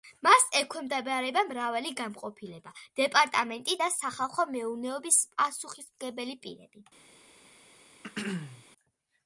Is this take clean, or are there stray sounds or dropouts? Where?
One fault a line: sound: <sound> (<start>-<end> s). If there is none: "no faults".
sound: throat clearing (8.0-8.7 s)